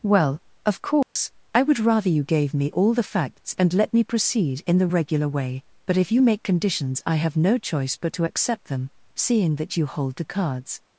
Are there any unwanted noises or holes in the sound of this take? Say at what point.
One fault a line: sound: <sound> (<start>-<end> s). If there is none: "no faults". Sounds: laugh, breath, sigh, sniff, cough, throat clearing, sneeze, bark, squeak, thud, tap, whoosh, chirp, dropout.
sound: dropout (1.0-1.2 s)